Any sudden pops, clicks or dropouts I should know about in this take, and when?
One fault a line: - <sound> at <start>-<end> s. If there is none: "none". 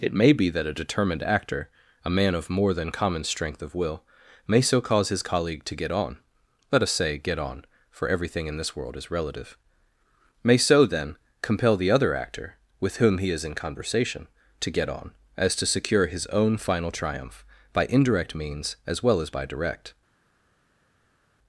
none